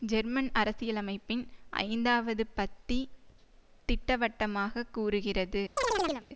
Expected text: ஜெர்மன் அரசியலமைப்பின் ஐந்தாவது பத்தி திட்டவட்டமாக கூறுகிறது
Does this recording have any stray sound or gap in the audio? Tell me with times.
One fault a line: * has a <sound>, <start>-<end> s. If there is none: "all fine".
* has a chirp, 5.8-6.3 s